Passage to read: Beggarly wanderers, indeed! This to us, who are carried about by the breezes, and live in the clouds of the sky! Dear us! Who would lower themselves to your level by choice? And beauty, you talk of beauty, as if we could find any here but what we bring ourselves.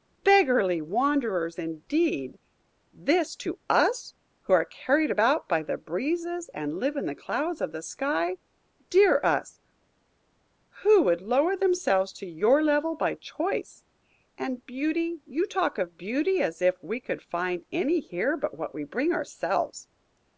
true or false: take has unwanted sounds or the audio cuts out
false